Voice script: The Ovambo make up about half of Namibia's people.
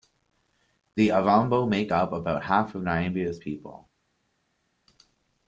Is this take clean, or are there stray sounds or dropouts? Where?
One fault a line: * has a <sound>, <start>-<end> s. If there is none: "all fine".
all fine